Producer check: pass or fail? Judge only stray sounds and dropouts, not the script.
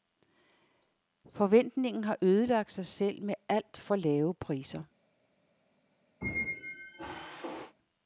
fail